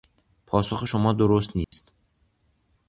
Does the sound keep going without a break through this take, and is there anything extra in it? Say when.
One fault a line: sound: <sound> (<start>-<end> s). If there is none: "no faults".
sound: dropout (1.6-1.7 s)